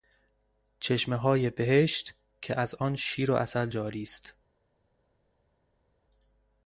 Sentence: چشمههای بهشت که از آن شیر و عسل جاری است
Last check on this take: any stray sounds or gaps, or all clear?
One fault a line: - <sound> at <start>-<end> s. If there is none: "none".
none